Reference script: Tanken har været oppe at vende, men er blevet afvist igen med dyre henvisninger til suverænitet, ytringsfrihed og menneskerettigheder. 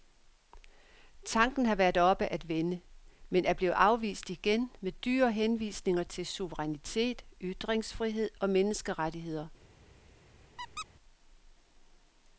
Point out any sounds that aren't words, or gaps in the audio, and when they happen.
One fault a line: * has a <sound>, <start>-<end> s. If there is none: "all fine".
* has a squeak, 10.6-10.9 s